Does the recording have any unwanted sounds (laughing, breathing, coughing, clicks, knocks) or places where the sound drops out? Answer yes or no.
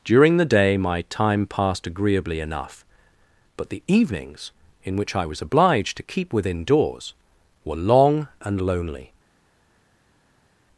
no